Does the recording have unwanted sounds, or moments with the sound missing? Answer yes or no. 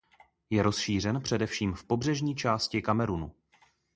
no